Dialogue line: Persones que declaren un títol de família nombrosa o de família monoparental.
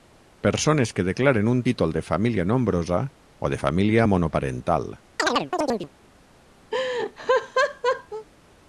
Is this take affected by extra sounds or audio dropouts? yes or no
yes